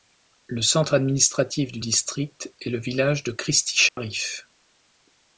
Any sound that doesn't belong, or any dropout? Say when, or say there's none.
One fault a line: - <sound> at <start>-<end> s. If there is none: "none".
- dropout at 3.9-4.0 s